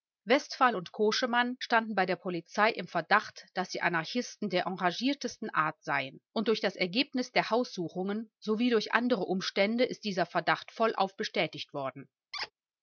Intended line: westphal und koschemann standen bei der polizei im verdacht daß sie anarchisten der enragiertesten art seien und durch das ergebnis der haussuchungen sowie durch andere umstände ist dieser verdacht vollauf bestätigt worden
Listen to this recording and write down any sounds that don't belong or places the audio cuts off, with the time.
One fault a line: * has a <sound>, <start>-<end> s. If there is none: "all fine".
* has a squeak, 12.3-12.5 s